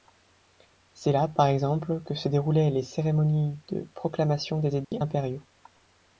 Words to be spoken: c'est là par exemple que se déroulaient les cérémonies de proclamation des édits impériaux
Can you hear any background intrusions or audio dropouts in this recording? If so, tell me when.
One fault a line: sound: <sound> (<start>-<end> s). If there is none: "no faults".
sound: dropout (4.8-4.9 s)